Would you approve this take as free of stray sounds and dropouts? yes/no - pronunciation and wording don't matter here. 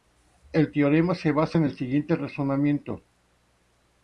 yes